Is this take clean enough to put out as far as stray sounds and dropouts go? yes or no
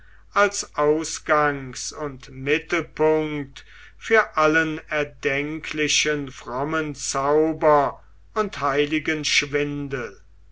yes